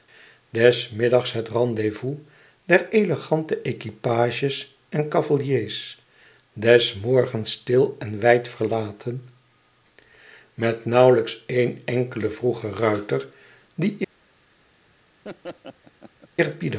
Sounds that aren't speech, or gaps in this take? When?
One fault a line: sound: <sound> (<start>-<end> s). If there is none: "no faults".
sound: laugh (15.2-16.3 s)